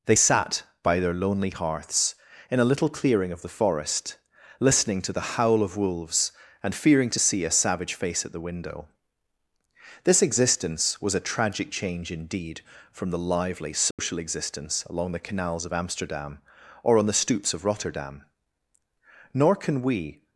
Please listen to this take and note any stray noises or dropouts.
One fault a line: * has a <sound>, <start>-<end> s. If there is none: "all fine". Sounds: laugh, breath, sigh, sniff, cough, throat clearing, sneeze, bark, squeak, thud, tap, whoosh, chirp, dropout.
* has a dropout, 13.9-14.0 s